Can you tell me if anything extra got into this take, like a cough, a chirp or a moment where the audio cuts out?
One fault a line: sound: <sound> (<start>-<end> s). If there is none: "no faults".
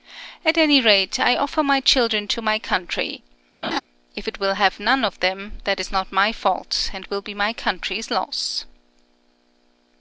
sound: laugh (3.6-3.8 s)